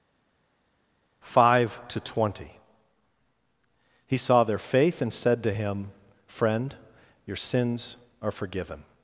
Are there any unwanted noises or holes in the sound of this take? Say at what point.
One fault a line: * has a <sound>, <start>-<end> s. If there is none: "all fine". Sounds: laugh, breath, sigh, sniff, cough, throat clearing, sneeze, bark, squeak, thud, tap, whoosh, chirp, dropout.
all fine